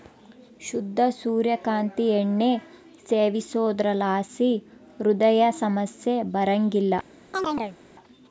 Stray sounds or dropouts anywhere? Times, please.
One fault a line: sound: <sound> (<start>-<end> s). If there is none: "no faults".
sound: chirp (7.3-7.8 s)